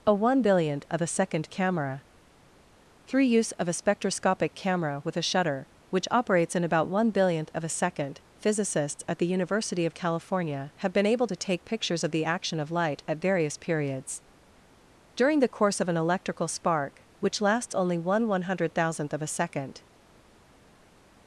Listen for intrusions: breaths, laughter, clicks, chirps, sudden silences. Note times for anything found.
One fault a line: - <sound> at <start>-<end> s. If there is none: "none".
none